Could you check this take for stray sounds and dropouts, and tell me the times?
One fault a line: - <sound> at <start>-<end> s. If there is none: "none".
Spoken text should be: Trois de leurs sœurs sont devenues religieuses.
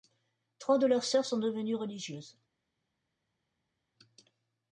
none